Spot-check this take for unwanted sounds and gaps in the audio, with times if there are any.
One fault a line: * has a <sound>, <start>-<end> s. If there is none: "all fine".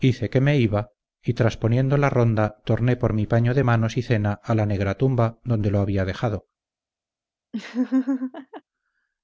* has a laugh, 7.5-8.6 s